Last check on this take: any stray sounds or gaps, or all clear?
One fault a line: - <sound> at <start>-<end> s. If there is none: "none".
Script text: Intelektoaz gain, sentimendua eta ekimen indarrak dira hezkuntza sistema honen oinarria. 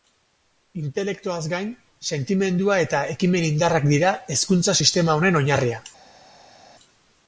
none